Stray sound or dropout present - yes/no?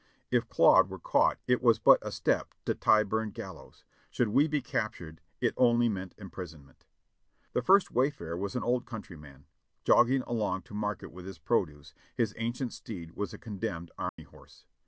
yes